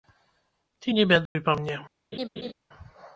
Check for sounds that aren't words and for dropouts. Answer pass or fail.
fail